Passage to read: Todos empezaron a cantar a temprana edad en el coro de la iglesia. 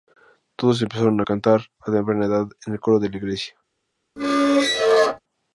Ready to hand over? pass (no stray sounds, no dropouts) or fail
fail